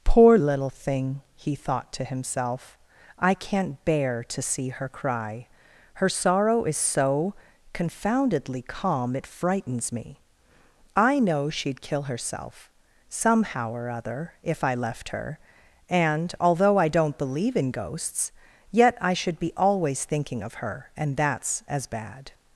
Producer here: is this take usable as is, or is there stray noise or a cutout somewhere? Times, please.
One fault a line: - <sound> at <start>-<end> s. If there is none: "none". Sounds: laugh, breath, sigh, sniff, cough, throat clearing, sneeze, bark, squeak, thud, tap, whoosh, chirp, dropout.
none